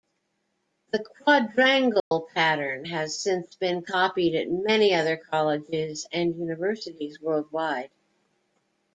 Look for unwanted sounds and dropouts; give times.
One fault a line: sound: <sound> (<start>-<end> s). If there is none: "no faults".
sound: dropout (2.0-2.1 s)